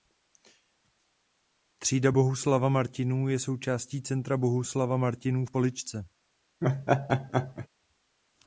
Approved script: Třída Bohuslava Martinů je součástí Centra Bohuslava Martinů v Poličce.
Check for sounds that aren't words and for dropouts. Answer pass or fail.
fail